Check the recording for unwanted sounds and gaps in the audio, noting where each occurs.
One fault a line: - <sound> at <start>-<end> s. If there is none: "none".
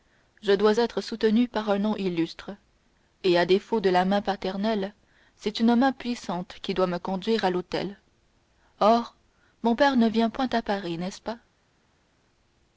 none